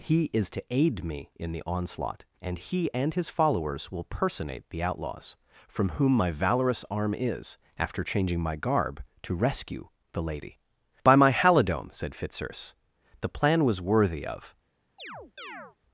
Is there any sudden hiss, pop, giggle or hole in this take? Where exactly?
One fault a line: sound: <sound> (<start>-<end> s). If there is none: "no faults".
sound: chirp (15.0-15.8 s)